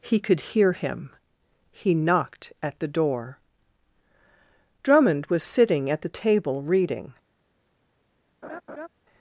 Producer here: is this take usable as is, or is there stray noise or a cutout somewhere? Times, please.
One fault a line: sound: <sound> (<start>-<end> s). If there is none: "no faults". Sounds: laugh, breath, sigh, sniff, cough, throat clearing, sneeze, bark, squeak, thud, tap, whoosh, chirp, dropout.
sound: laugh (8.4-8.9 s)